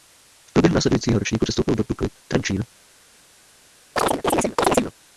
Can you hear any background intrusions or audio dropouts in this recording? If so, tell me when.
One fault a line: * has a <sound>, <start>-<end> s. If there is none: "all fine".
* has a chirp, 4.0-4.9 s